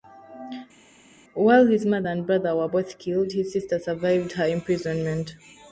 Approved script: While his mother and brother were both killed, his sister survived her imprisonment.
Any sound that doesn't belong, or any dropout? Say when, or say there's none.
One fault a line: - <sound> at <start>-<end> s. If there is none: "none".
none